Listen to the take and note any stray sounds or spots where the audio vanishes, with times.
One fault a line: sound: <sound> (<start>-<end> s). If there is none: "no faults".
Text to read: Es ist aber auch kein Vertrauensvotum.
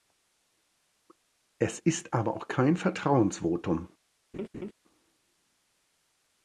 sound: laugh (4.3-4.7 s)